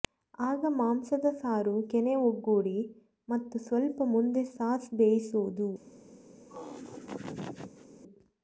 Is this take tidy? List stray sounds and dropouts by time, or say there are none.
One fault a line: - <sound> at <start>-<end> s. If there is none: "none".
- laugh at 6.5-7.9 s